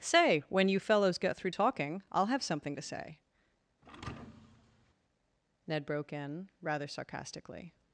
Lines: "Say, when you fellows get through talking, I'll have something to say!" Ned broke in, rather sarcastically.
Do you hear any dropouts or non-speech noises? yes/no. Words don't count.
yes